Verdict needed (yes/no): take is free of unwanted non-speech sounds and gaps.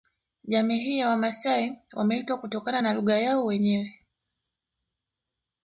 yes